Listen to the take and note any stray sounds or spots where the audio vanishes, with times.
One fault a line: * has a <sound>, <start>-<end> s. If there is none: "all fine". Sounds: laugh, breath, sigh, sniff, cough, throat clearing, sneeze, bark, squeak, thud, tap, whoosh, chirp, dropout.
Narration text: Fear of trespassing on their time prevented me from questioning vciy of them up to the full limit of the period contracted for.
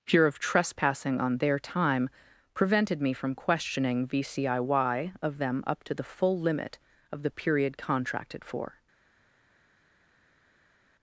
all fine